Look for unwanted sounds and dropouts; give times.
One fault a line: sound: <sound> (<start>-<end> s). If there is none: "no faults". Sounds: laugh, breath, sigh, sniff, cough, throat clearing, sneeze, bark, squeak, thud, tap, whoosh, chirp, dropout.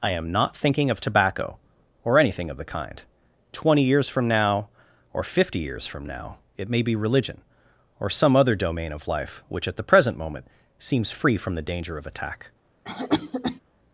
sound: cough (12.9-13.6 s)